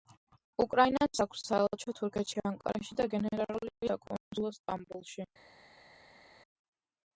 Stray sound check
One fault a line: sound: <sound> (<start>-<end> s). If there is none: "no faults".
no faults